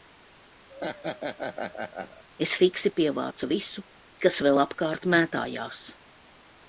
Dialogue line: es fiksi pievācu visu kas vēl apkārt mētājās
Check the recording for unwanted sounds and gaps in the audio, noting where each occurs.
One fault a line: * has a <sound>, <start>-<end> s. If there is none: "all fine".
* has a laugh, 0.7-2.2 s